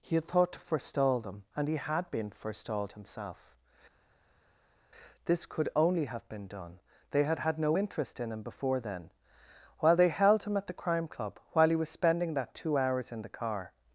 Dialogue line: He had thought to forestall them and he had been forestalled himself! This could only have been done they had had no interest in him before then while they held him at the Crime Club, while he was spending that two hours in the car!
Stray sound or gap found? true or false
false